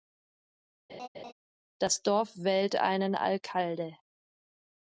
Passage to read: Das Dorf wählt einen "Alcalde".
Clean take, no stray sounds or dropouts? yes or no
no